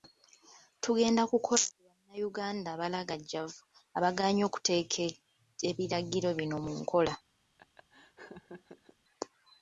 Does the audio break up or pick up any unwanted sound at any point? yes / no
yes